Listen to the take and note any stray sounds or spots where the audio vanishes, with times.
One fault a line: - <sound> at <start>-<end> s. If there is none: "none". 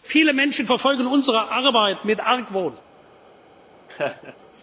- laugh at 3.9-4.4 s